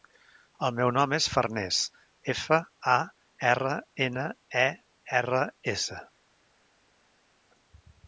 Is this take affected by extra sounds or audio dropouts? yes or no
no